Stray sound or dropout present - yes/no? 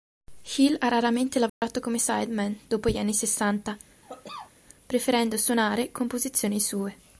yes